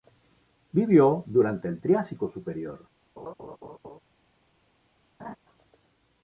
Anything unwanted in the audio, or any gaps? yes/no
yes